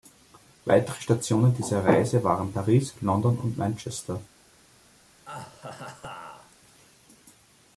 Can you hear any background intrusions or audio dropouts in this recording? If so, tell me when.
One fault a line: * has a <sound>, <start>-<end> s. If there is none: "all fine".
* has a laugh, 5.3-6.6 s